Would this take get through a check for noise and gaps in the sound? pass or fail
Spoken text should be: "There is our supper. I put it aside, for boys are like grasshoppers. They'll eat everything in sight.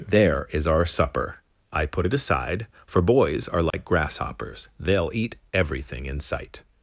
fail